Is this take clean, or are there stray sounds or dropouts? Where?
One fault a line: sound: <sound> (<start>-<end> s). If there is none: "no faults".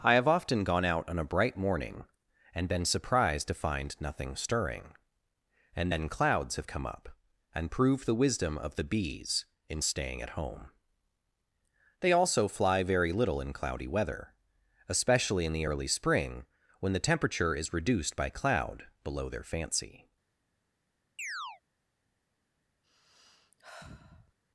sound: chirp (21.2-21.6 s)
sound: sigh (22.8-24.3 s)